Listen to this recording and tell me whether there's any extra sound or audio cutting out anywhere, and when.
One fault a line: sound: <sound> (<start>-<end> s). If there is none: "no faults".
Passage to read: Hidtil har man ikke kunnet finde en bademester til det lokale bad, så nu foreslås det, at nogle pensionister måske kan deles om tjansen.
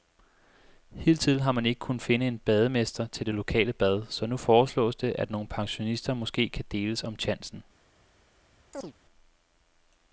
sound: chirp (8.7-8.9 s)